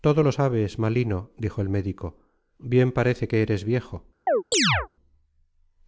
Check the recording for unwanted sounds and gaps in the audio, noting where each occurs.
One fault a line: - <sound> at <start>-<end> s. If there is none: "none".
- chirp at 4.3-4.9 s